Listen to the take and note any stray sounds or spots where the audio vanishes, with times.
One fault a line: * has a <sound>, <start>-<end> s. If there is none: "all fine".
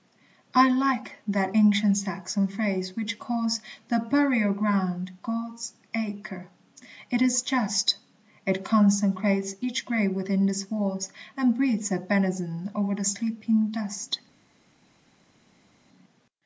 all fine